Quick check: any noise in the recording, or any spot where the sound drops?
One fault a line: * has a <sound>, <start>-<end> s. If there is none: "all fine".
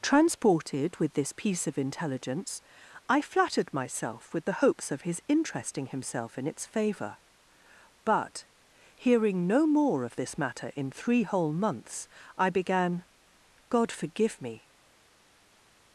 all fine